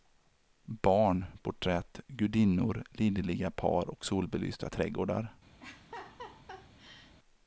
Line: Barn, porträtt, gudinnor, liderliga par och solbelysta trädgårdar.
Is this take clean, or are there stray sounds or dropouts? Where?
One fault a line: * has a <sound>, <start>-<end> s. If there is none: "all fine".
* has a laugh, 5.6-7.1 s